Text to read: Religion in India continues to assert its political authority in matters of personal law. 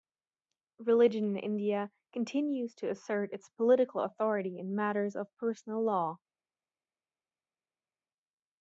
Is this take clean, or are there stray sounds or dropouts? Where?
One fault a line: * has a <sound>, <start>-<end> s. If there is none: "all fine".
all fine